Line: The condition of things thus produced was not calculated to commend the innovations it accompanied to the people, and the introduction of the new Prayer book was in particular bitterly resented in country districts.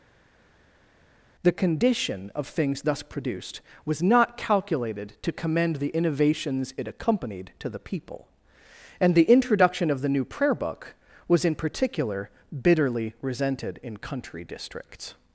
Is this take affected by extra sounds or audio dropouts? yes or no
no